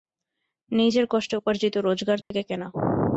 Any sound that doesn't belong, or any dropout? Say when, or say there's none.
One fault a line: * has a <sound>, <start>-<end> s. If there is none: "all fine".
* has a dropout, 2.2-2.3 s